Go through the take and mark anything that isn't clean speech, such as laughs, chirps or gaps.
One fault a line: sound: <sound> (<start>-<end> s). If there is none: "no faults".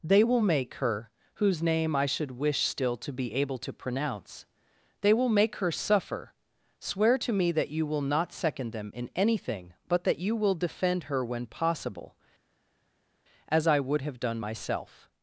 no faults